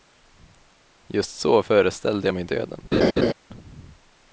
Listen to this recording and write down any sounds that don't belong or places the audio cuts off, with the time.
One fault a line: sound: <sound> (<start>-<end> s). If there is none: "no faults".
sound: laugh (2.9-3.3 s)